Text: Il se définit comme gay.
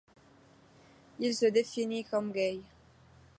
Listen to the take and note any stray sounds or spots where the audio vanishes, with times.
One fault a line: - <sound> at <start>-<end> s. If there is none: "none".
none